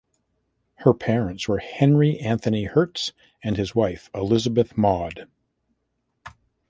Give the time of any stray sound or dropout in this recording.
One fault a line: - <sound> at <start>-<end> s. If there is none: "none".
none